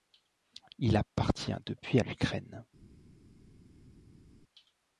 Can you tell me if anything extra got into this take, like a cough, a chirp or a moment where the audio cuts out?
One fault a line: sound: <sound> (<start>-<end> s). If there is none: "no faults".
no faults